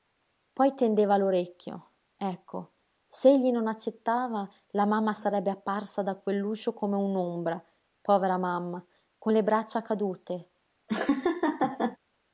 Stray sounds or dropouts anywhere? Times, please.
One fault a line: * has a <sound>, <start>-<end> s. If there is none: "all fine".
* has a laugh, 10.9-12.0 s